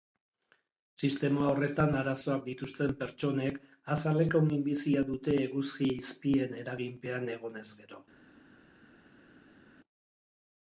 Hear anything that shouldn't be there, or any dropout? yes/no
no